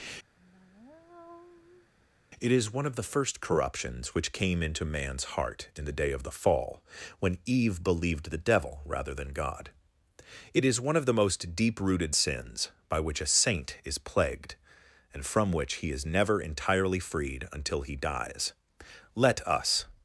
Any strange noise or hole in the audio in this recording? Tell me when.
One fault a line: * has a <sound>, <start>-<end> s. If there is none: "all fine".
* has a sigh, 0.4-1.9 s